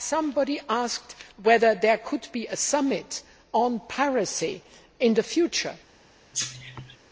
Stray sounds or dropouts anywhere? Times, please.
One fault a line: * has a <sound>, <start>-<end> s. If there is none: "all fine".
* has a cough, 6.3-7.0 s